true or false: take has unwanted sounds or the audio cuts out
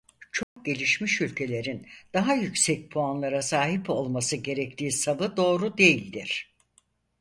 true